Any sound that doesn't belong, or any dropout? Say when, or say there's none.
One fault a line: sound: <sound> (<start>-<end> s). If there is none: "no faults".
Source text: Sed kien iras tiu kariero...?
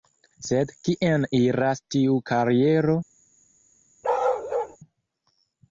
sound: bark (4.0-4.8 s)